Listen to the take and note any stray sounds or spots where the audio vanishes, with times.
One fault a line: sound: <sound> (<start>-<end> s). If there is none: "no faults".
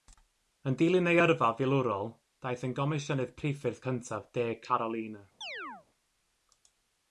sound: chirp (5.4-5.9 s)